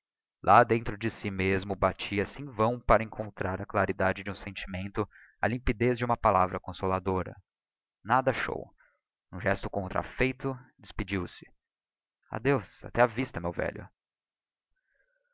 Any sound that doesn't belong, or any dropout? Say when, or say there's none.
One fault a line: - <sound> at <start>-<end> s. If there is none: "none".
none